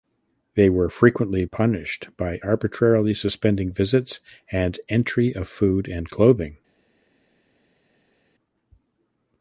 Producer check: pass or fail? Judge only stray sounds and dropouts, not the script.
pass